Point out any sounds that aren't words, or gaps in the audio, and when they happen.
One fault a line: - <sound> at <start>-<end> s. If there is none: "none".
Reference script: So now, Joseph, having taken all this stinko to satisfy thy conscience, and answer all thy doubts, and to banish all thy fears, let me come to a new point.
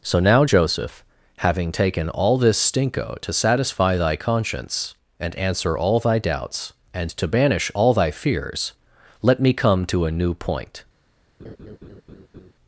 - laugh at 11.4-12.5 s